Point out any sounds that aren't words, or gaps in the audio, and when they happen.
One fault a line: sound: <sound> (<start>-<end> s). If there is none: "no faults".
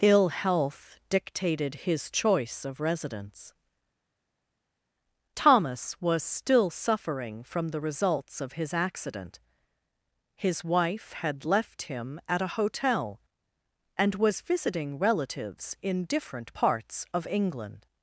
no faults